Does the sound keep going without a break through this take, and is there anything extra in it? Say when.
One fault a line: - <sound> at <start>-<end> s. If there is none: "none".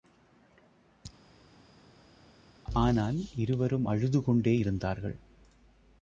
none